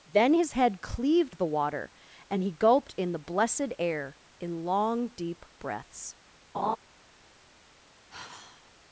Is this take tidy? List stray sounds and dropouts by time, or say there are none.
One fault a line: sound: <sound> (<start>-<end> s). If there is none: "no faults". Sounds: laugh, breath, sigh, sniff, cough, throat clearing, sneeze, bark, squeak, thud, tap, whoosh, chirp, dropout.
sound: laugh (6.5-6.8 s)
sound: sigh (8.1-8.7 s)